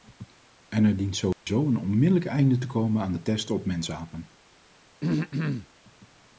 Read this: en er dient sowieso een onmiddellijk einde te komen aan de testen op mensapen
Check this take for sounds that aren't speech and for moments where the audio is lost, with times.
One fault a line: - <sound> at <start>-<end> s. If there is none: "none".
- dropout at 1.3-1.5 s
- throat clearing at 5.0-5.7 s